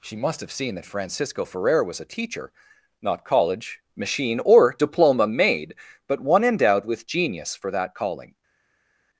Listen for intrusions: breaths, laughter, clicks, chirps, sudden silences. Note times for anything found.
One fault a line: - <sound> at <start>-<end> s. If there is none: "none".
none